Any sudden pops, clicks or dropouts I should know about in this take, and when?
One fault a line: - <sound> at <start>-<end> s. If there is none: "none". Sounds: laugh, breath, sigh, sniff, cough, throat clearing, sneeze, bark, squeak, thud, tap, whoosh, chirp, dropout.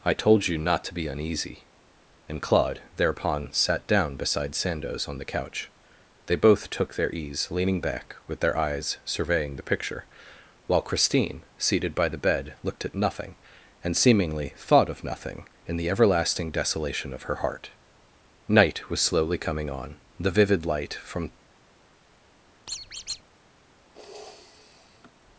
- squeak at 22.7-23.2 s
- sniff at 23.9-25.1 s